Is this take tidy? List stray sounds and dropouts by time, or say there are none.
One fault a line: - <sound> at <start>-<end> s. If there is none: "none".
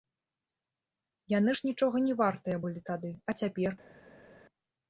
none